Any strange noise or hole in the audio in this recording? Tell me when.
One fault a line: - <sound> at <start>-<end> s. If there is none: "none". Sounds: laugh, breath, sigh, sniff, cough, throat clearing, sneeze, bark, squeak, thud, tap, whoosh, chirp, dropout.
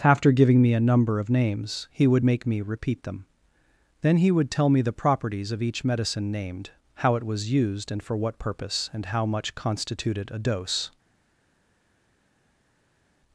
none